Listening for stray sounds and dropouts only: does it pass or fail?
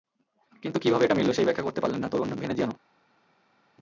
pass